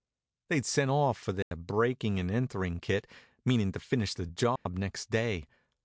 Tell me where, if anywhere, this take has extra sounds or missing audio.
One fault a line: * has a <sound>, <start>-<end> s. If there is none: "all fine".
* has a dropout, 1.4-1.5 s
* has a dropout, 4.6-4.7 s